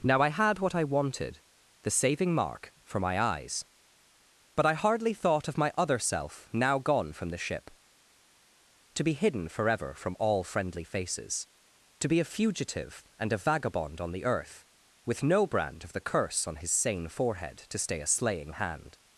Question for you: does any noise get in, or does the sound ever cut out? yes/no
no